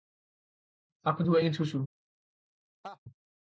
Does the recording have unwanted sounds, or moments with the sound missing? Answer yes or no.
yes